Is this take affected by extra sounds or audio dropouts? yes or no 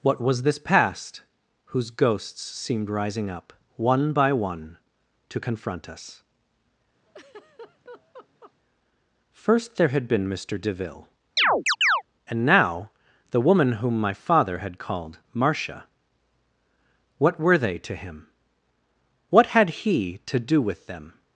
yes